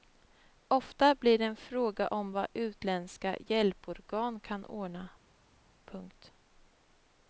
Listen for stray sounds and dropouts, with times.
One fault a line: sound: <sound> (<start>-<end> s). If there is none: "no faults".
no faults